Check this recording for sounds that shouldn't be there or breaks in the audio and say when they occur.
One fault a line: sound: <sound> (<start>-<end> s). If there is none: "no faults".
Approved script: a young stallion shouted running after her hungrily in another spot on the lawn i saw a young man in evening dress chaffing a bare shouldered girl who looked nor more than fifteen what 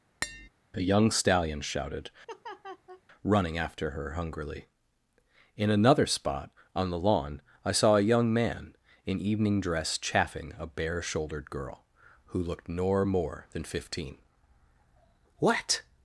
sound: tap (0.2-0.5 s)
sound: laugh (2.3-3.0 s)